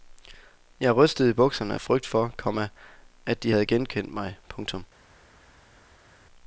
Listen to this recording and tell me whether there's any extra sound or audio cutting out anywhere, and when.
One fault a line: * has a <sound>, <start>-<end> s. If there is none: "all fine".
all fine